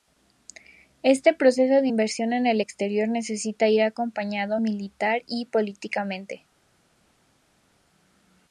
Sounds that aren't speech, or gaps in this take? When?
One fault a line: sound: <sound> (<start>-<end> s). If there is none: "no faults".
no faults